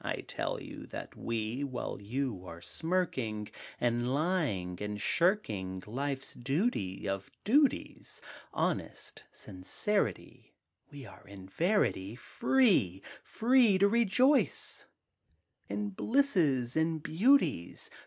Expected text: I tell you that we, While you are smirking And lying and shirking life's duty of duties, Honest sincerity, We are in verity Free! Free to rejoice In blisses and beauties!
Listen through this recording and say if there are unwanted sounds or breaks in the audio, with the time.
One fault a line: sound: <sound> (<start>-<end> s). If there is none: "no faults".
no faults